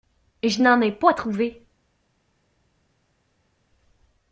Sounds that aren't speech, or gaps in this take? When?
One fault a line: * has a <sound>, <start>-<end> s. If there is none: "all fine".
all fine